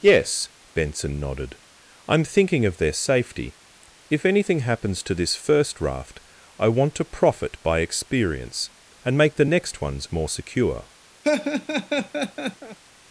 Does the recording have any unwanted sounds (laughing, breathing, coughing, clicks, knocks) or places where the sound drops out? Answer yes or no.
yes